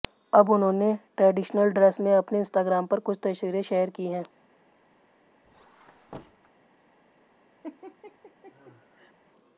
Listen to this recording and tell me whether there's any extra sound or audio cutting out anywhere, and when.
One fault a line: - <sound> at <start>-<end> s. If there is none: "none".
- squeak at 5.4-6.5 s
- laugh at 7.6-9.1 s